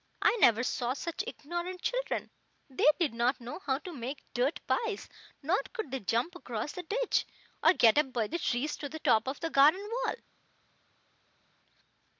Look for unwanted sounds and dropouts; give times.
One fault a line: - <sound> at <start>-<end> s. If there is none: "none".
none